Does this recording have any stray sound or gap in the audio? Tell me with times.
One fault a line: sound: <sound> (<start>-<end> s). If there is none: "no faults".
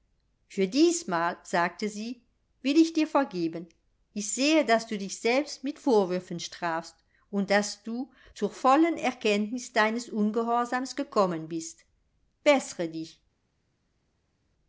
no faults